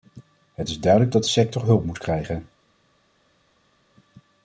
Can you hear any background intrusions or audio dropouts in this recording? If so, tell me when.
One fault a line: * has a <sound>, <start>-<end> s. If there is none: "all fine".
all fine